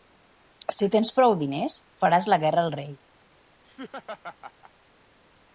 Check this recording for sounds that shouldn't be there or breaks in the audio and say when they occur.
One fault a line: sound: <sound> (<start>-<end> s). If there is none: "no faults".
sound: laugh (3.6-4.7 s)